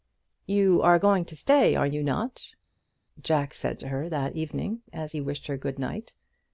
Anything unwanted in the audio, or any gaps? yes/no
no